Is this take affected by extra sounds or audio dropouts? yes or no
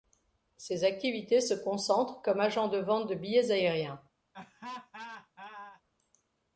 yes